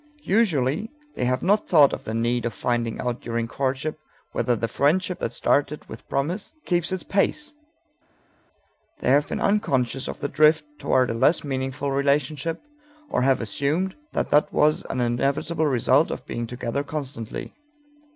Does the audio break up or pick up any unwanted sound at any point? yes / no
no